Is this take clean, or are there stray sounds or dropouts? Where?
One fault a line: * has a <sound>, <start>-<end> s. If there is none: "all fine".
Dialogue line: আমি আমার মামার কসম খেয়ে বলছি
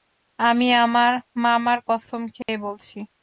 * has a dropout, 2.4-2.5 s